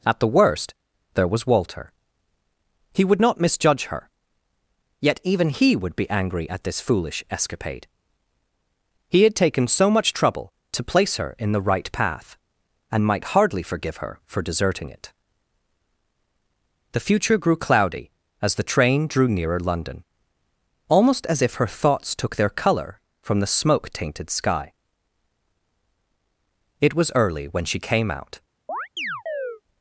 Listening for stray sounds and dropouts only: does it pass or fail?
fail